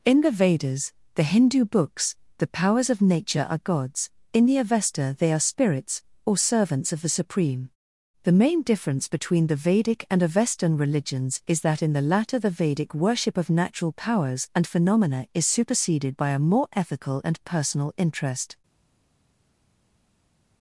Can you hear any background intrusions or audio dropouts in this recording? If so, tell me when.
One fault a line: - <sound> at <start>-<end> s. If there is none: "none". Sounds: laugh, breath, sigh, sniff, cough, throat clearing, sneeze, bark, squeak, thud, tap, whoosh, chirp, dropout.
none